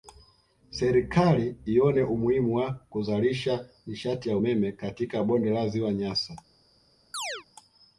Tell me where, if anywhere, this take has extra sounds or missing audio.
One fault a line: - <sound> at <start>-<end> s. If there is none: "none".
- chirp at 7.1-7.5 s